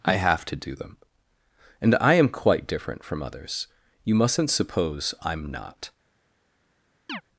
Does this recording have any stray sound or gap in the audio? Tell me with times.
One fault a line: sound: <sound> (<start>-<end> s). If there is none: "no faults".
sound: chirp (7.1-7.2 s)